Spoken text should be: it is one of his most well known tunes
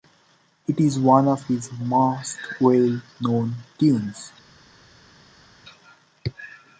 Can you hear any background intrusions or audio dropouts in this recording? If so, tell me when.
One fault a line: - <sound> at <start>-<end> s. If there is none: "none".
none